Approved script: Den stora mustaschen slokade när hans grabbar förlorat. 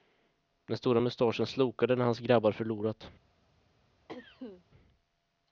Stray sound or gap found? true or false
true